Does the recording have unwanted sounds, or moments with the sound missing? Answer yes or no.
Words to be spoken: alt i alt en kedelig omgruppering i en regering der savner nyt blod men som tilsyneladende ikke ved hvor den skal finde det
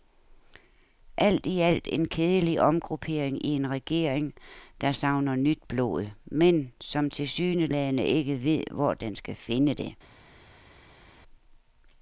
no